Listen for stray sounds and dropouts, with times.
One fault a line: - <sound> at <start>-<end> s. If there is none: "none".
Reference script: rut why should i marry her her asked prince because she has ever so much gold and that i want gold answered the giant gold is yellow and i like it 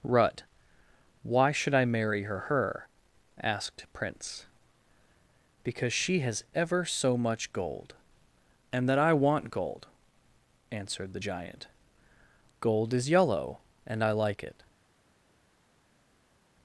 none